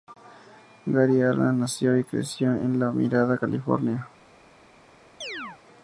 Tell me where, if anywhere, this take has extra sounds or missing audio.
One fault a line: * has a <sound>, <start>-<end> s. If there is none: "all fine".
* has a chirp, 5.2-5.6 s